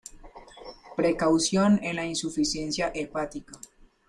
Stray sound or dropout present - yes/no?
no